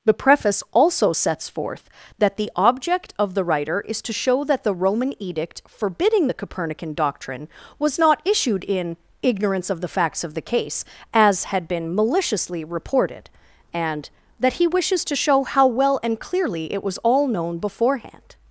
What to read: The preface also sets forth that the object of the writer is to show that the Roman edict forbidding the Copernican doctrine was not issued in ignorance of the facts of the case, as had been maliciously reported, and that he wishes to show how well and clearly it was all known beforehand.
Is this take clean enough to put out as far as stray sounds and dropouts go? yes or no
yes